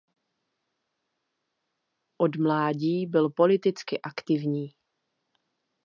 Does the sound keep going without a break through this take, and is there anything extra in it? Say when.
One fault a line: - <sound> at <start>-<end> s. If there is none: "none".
none